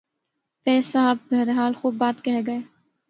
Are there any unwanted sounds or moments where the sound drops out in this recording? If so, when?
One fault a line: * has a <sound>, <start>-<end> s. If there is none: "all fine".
all fine